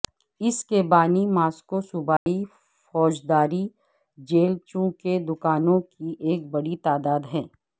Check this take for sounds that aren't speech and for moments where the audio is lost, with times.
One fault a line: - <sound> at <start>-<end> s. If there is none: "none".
- dropout at 2.2-2.3 s